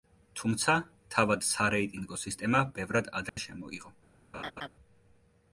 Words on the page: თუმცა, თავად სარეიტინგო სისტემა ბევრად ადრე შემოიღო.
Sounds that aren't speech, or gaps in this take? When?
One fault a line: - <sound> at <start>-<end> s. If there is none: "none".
- dropout at 3.3-3.4 s
- laugh at 4.3-4.7 s